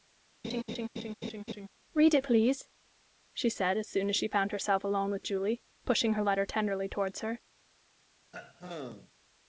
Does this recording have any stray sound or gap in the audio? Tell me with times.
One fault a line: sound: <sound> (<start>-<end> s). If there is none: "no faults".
sound: laugh (0.4-1.7 s)
sound: throat clearing (8.3-9.1 s)